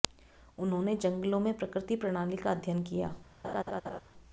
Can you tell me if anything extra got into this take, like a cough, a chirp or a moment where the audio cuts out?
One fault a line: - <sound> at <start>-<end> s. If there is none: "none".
- laugh at 3.4-4.0 s